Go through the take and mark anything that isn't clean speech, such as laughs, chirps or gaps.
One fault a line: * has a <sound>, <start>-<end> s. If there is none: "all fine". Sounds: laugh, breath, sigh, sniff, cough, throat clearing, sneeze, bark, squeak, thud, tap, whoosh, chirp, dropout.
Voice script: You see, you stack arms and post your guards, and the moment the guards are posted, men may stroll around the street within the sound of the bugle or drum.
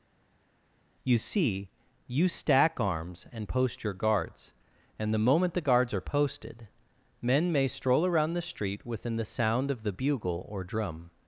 all fine